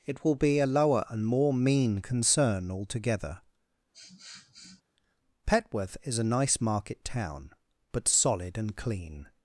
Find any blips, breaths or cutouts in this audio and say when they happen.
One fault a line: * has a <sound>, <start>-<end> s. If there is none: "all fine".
* has a sniff, 3.9-4.8 s